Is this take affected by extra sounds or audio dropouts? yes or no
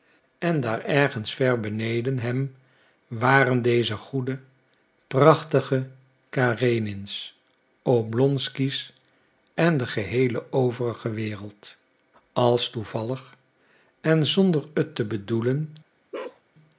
yes